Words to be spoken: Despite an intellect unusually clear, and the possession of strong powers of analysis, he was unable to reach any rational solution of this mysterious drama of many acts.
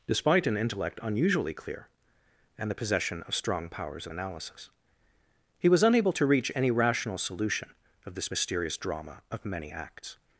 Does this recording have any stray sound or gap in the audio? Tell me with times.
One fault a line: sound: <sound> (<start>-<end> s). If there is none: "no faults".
no faults